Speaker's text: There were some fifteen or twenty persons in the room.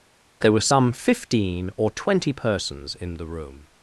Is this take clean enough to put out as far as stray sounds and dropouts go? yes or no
yes